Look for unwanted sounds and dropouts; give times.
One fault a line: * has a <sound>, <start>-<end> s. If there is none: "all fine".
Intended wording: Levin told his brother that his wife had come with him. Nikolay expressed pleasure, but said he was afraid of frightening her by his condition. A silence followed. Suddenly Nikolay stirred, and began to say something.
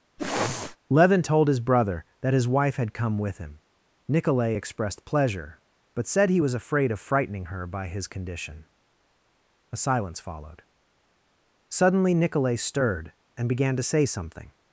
* has a sniff, 0.2-0.8 s